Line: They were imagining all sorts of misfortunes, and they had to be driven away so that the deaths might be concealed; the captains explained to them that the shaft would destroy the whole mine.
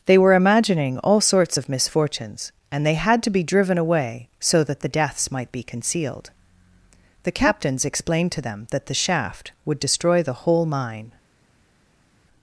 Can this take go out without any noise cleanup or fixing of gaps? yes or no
yes